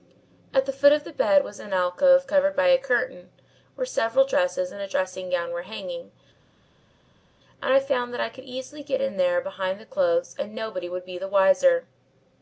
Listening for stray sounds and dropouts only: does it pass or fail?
pass